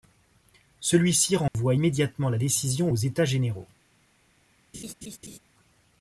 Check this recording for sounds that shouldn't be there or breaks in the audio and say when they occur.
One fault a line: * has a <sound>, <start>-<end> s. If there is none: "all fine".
* has a dropout, 1.5-1.5 s
* has a laugh, 4.7-5.4 s